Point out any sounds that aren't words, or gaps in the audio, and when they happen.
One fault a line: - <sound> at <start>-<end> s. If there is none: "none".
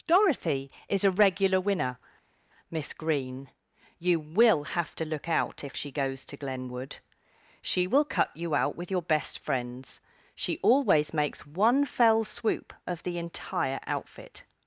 none